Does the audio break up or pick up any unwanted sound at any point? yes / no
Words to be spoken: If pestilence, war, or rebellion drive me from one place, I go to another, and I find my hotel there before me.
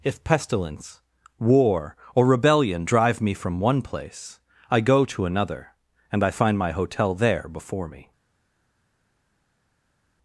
no